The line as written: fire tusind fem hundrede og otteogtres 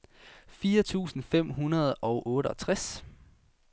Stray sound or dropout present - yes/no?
no